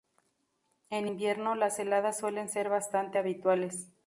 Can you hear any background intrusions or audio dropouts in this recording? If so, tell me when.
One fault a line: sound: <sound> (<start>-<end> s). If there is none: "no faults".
no faults